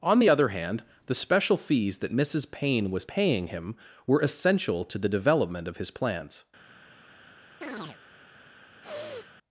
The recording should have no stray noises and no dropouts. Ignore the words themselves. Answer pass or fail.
fail